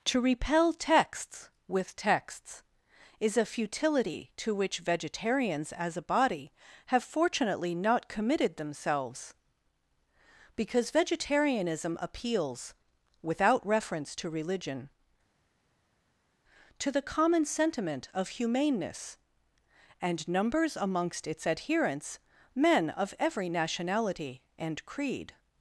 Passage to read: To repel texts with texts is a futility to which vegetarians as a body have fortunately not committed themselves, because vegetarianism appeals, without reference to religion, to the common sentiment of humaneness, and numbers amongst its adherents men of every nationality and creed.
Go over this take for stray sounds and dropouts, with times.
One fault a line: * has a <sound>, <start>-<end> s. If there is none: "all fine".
all fine